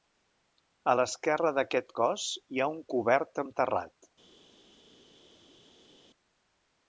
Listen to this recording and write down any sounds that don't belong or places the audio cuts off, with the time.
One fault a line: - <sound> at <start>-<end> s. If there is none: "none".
none